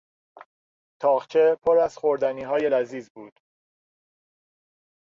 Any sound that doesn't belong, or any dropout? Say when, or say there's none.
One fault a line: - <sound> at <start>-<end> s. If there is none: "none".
none